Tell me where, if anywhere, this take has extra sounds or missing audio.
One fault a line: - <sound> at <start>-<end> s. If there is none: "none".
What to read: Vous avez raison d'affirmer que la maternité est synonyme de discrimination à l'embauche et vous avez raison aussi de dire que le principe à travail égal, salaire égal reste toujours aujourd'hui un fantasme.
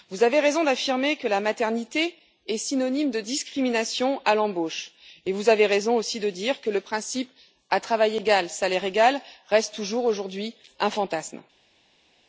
none